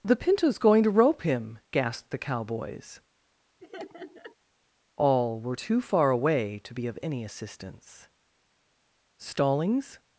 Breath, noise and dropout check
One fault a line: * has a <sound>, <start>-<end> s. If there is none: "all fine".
* has a laugh, 3.6-4.3 s